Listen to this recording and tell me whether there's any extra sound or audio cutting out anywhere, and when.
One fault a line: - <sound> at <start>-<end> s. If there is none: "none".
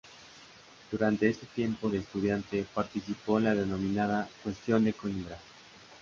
none